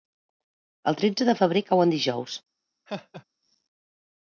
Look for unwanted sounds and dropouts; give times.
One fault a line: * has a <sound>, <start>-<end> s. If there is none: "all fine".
* has a laugh, 2.9-3.2 s